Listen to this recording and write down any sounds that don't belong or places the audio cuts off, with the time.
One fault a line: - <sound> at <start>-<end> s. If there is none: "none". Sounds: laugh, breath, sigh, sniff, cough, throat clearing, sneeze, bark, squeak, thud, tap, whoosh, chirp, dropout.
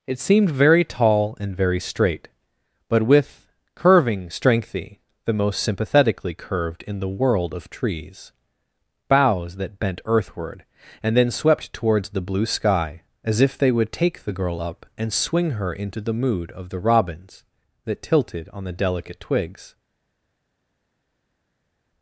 none